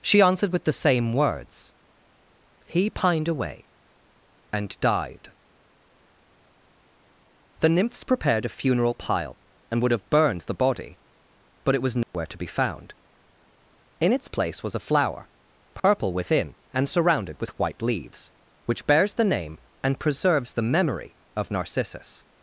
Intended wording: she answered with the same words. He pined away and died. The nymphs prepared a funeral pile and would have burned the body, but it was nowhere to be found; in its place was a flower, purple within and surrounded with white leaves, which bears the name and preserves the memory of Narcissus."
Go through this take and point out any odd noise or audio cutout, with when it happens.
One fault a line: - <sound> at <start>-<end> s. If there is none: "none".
- dropout at 12.0-12.1 s
- dropout at 15.8-15.8 s